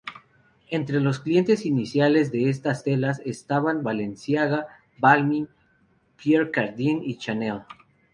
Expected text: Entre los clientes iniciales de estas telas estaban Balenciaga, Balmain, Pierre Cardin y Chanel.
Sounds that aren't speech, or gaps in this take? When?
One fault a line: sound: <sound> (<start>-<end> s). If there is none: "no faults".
no faults